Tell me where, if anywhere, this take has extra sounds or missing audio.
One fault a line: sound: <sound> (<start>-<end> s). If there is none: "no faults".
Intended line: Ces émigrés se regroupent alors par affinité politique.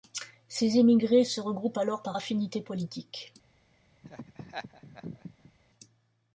sound: laugh (4.0-5.5 s)